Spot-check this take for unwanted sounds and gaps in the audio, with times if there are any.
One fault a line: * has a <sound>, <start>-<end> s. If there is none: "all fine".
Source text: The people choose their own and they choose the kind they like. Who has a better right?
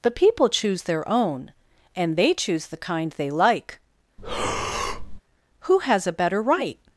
* has a breath, 4.2-5.2 s